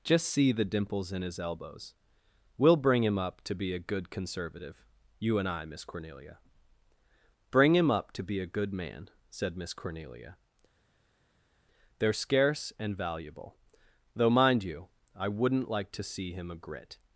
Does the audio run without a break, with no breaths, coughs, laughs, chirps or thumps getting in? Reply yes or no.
yes